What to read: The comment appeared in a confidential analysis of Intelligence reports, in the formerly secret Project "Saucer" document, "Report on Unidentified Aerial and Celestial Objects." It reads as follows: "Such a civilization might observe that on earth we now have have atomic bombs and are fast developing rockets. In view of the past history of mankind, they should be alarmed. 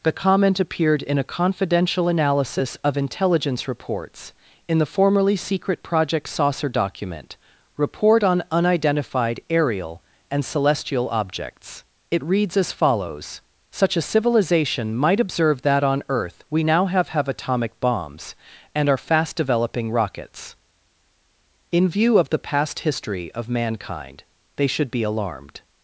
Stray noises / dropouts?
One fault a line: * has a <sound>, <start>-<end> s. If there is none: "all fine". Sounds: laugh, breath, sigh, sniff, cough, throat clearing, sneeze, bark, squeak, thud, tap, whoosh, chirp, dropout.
all fine